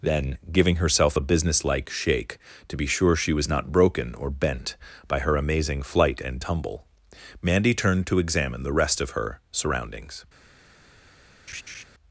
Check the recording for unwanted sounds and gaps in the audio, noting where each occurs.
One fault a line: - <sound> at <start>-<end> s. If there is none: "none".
- laugh at 11.5-11.8 s